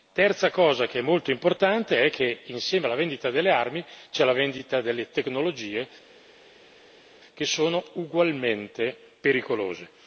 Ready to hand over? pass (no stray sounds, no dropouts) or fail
pass